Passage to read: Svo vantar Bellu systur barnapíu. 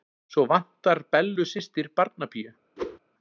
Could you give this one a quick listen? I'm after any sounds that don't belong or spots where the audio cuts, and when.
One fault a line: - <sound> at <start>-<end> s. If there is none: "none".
- whoosh at 2.8-3.0 s